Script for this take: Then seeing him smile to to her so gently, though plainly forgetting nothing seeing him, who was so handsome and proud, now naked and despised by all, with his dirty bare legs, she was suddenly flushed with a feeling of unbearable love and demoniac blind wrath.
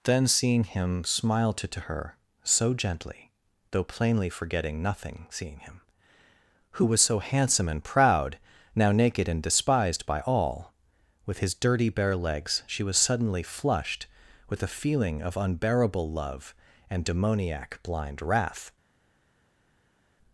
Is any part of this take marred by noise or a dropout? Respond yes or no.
no